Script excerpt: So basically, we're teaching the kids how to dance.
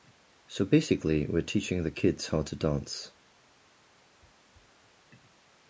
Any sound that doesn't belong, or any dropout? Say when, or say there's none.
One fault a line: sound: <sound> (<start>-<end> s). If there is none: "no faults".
no faults